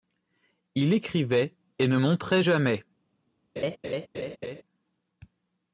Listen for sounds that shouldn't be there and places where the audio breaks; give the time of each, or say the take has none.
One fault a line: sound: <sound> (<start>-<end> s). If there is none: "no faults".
sound: laugh (3.6-4.6 s)